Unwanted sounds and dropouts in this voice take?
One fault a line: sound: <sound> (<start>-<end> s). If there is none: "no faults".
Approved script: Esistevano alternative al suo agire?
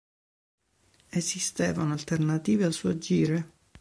no faults